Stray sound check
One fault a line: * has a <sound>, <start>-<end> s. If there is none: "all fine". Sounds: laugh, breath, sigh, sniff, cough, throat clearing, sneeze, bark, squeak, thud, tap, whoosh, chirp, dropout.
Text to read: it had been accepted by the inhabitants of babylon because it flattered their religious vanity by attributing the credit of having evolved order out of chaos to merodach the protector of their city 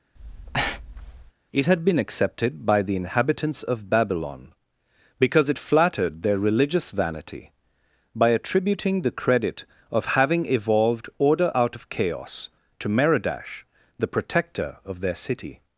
* has a breath, 0.2-1.3 s